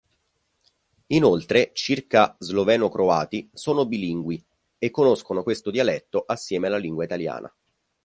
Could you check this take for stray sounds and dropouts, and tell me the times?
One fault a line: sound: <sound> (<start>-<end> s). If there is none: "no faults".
no faults